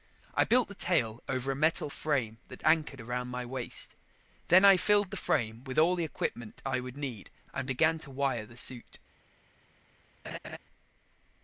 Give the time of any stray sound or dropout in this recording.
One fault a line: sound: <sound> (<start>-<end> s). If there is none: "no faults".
sound: laugh (10.2-10.6 s)